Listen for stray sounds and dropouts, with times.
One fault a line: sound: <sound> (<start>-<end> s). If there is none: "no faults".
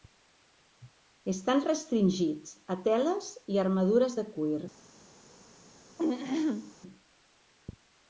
sound: throat clearing (6.0-6.7 s)